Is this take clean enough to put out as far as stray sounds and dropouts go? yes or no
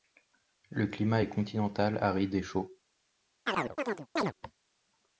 no